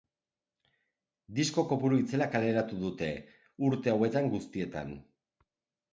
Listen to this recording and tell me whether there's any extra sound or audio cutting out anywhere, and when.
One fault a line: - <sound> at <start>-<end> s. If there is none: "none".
none